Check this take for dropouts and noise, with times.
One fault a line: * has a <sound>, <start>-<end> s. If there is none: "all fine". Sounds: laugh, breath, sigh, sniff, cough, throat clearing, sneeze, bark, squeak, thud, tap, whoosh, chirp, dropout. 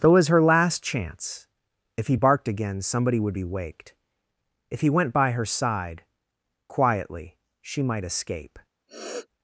* has a sniff, 8.9-9.3 s